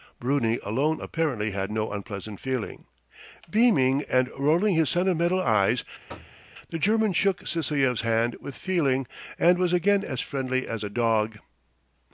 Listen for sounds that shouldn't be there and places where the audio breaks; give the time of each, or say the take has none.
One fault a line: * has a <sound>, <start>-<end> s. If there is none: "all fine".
* has a thud, 6.1-6.4 s